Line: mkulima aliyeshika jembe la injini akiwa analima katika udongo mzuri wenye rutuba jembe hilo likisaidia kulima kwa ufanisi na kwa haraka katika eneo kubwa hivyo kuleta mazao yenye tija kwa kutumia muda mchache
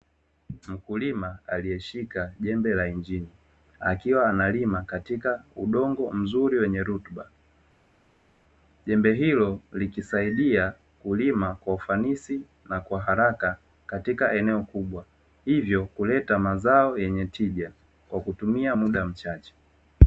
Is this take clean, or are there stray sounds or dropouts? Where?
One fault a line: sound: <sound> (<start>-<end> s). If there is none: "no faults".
no faults